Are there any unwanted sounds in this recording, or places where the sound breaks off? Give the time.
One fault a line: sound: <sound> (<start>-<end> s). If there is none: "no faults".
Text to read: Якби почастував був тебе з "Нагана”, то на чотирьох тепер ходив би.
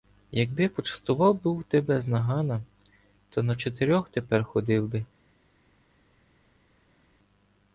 no faults